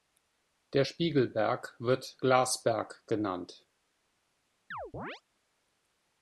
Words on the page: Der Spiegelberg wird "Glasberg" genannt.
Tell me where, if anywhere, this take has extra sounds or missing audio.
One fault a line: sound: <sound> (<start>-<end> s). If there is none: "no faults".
sound: chirp (4.7-5.2 s)